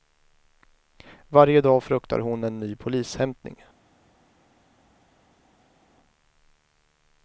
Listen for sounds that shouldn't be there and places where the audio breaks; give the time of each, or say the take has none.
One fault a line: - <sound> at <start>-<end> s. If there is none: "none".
none